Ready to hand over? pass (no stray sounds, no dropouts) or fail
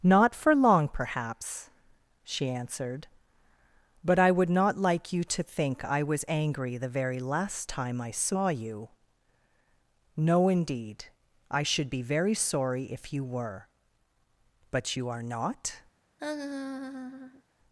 fail